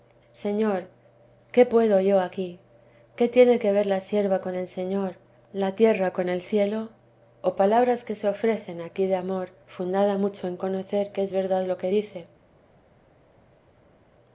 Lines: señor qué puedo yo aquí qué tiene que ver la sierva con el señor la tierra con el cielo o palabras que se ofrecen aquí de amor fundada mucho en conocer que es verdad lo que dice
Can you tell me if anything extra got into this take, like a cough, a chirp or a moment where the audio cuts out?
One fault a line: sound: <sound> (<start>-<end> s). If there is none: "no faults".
no faults